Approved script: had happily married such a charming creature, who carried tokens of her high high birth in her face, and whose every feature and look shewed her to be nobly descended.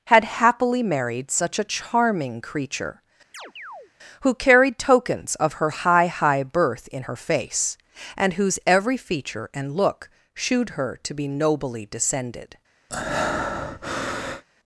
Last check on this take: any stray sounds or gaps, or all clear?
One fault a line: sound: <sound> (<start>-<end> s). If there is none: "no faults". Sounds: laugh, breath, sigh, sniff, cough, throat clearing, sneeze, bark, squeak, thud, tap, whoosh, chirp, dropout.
sound: chirp (3.3-3.9 s)
sound: breath (12.9-14.4 s)